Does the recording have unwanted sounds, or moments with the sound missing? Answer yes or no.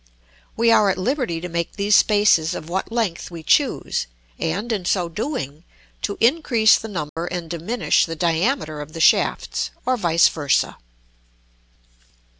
yes